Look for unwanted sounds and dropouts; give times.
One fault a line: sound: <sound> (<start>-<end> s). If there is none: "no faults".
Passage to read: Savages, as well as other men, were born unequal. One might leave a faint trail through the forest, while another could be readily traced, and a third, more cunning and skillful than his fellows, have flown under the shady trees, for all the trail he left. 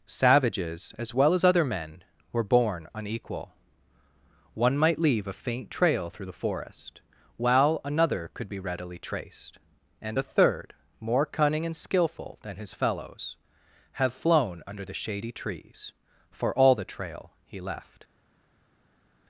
no faults